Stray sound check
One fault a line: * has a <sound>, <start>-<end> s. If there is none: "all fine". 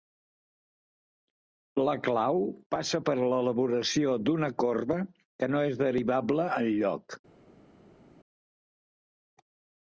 all fine